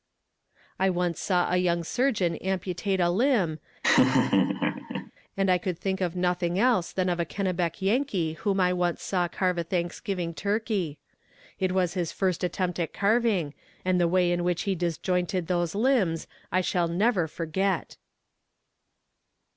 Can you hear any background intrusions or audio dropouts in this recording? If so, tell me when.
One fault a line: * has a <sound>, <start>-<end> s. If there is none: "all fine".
* has a laugh, 3.8-5.1 s